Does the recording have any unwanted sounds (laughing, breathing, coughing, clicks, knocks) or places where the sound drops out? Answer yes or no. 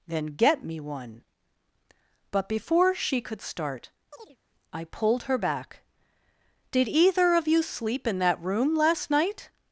yes